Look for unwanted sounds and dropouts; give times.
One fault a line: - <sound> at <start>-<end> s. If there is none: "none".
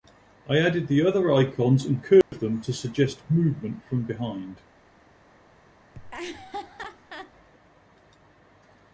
- dropout at 2.2-2.3 s
- laugh at 5.9-7.3 s